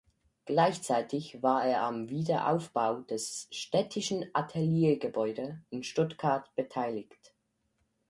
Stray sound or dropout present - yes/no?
no